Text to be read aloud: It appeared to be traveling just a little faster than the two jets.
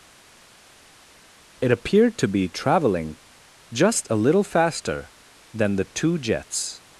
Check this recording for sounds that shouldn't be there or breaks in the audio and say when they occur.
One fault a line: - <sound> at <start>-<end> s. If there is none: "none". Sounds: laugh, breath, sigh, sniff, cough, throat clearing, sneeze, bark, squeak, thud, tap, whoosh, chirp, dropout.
none